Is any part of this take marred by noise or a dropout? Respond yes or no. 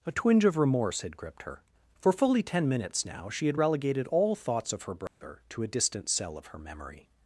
yes